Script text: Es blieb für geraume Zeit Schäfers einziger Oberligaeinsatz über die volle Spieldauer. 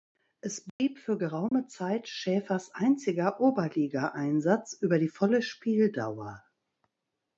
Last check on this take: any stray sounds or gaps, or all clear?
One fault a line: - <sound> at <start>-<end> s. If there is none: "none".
- dropout at 0.7-0.8 s
- dropout at 1.5-1.5 s